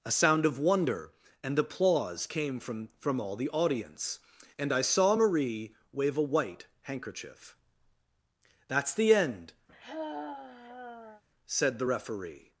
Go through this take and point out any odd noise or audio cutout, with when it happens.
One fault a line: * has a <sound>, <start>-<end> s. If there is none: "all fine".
* has a sigh, 9.7-11.2 s